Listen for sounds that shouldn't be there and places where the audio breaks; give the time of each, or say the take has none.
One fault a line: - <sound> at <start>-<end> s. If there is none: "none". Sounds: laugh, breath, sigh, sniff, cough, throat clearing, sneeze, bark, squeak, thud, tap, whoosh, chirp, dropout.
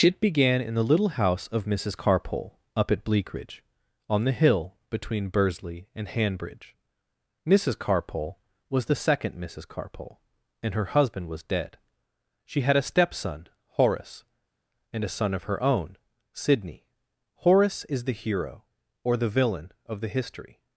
none